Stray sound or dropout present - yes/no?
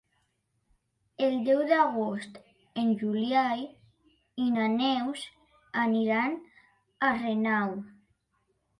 no